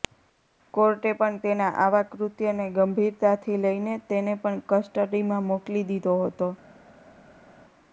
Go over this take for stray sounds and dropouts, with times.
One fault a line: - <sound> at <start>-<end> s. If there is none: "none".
none